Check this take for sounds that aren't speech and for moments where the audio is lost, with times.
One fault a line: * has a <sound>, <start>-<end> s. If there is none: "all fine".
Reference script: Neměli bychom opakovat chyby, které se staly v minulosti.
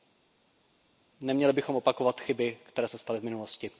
all fine